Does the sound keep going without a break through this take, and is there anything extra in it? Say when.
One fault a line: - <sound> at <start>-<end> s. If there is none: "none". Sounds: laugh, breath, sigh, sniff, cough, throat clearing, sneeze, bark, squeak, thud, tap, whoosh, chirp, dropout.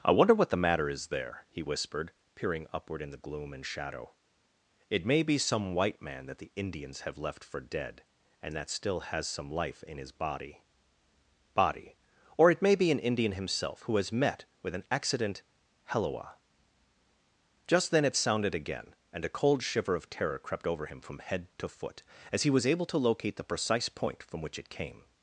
none